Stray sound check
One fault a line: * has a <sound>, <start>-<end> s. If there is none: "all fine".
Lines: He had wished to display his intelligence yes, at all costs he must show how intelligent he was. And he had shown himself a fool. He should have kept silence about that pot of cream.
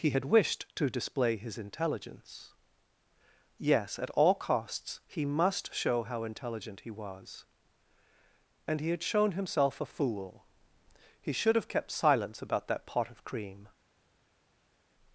all fine